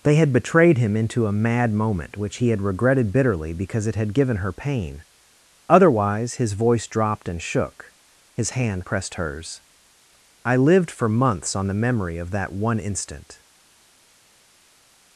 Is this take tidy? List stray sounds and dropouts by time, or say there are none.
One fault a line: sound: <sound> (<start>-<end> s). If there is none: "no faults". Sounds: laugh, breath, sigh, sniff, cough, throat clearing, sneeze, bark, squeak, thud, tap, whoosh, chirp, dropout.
no faults